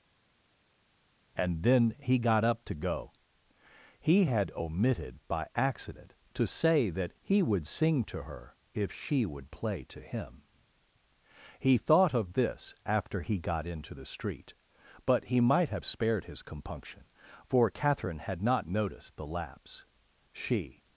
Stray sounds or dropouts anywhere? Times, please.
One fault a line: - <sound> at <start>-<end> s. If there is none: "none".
none